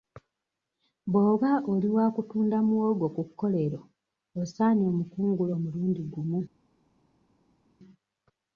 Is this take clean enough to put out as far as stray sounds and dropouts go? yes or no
yes